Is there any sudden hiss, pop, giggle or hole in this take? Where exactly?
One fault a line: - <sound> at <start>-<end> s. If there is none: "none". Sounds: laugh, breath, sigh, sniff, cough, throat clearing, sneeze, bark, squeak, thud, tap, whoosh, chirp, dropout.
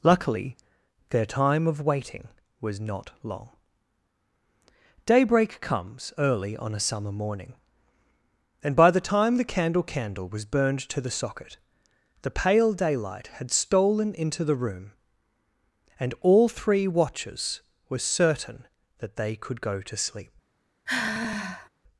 - sigh at 20.9-21.7 s